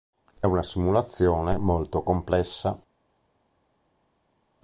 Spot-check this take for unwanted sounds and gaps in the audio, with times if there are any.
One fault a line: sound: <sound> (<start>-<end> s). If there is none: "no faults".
no faults